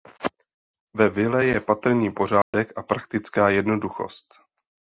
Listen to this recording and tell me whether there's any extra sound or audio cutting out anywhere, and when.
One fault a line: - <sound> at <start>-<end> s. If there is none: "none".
- dropout at 2.4-2.5 s